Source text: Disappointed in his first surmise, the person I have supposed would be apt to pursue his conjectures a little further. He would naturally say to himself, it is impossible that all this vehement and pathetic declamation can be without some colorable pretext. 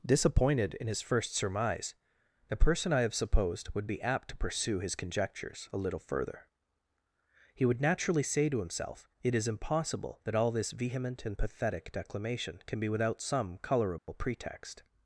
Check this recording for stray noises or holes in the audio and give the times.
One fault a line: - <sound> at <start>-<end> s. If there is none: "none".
- dropout at 14.0-14.1 s